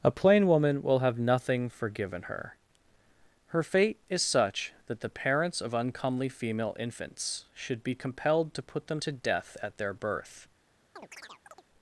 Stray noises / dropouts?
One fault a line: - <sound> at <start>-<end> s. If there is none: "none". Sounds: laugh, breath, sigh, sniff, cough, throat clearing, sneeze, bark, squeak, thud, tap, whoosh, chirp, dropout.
- chirp at 11.0-11.6 s